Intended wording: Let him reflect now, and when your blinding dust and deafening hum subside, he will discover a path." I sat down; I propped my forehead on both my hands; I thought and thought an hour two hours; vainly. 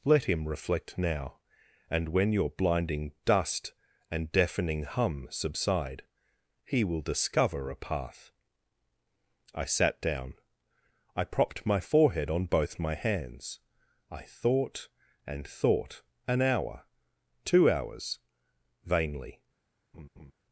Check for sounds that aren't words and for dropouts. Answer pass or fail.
fail